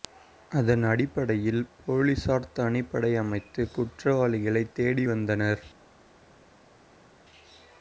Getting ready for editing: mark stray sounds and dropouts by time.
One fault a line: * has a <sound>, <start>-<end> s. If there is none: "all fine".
all fine